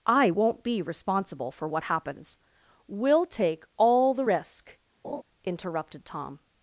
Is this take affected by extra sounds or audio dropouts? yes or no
yes